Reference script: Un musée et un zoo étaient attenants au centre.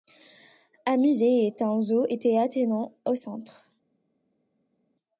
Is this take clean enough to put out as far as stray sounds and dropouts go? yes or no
yes